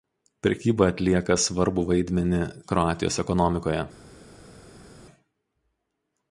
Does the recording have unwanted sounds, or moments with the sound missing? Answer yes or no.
no